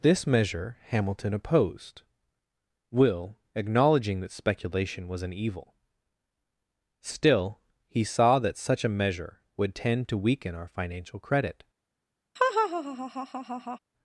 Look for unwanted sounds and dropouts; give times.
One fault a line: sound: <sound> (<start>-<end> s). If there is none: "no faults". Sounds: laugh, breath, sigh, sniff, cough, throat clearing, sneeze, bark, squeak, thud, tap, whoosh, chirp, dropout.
sound: laugh (12.4-13.8 s)